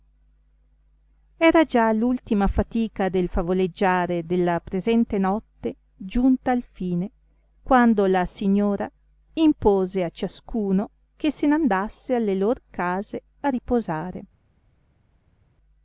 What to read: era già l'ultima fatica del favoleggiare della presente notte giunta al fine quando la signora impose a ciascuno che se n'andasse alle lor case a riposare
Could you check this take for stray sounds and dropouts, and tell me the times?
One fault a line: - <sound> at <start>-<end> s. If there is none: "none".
none